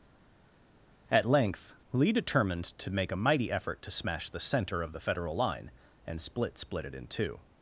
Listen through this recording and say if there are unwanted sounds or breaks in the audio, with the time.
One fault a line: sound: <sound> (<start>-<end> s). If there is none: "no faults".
no faults